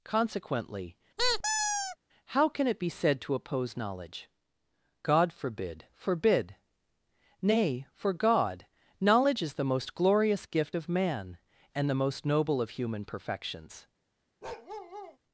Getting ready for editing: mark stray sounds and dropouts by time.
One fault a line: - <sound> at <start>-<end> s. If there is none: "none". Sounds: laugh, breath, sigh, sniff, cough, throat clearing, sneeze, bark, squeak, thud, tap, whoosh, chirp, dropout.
- squeak at 1.2-2.0 s
- bark at 14.4-15.2 s